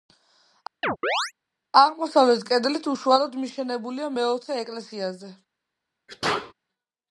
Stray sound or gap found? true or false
true